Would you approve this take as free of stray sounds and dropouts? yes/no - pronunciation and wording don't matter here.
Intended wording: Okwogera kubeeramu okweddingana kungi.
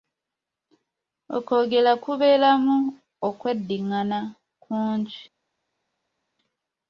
yes